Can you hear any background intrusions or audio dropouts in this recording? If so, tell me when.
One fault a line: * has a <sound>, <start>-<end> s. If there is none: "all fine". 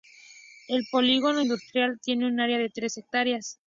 all fine